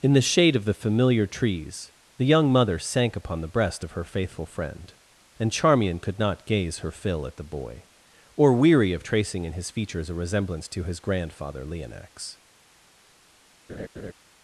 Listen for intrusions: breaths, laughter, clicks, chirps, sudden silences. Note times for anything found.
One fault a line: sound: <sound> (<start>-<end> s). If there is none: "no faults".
sound: laugh (13.7-14.1 s)